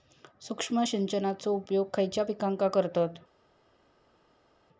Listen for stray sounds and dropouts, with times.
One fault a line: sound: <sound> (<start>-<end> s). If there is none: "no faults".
no faults